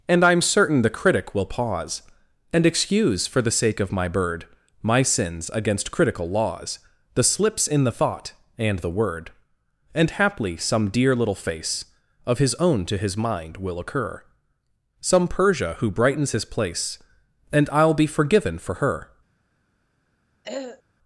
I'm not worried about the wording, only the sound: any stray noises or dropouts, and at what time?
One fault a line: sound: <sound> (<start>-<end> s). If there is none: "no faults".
sound: throat clearing (20.4-20.8 s)